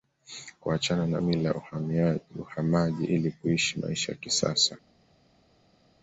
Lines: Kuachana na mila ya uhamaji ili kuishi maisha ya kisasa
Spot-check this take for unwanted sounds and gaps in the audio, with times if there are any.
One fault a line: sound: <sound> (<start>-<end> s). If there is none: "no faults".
no faults